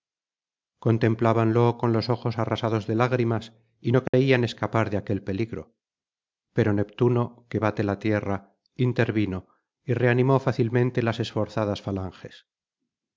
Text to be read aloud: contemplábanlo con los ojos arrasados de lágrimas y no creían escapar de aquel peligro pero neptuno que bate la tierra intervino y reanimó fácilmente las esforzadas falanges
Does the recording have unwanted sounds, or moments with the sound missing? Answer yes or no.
yes